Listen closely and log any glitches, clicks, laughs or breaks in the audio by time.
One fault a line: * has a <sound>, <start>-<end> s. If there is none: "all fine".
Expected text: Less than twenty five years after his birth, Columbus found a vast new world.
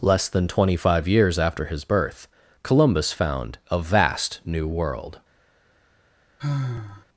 * has a sigh, 6.4-7.0 s